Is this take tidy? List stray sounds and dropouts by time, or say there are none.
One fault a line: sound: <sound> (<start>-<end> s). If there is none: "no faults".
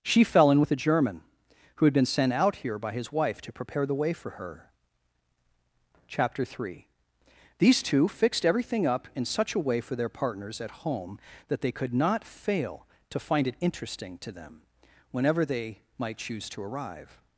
no faults